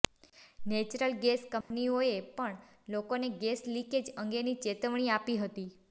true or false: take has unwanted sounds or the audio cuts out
true